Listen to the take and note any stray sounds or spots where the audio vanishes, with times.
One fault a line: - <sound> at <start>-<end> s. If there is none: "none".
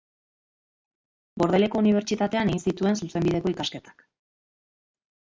none